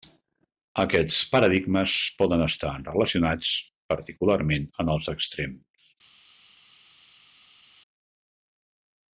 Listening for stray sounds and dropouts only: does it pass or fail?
pass